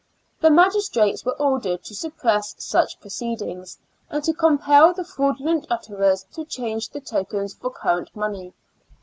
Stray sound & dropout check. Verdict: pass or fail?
pass